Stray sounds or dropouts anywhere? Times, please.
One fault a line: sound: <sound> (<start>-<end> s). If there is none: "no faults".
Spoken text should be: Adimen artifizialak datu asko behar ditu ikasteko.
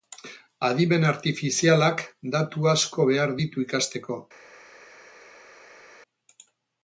no faults